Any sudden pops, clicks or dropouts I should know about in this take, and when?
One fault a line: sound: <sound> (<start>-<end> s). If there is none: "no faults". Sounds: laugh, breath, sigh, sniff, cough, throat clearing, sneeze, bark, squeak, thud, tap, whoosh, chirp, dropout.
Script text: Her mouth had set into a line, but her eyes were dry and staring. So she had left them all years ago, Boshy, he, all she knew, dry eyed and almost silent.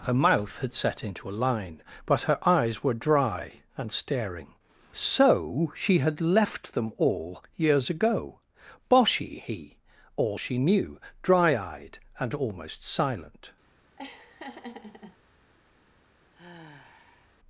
sound: laugh (14.0-15.2 s)
sound: sigh (16.3-17.3 s)